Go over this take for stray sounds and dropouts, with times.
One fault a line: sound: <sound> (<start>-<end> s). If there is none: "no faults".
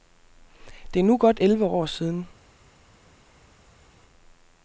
no faults